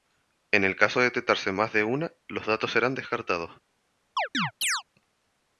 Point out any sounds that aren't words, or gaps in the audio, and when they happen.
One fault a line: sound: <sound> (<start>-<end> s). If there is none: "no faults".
sound: chirp (4.2-4.8 s)